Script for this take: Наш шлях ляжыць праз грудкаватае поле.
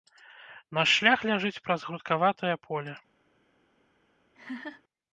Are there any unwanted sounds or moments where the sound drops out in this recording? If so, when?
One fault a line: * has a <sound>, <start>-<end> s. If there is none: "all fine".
* has a laugh, 4.3-4.8 s